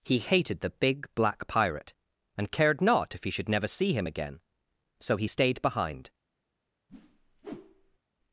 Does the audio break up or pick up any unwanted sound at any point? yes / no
yes